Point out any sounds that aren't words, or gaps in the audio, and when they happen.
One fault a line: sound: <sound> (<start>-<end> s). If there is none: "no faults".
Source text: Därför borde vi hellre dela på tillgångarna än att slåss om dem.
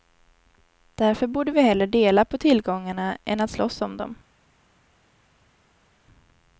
no faults